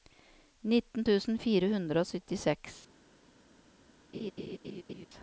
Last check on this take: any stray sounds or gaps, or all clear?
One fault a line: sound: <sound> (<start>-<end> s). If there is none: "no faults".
sound: laugh (4.1-5.1 s)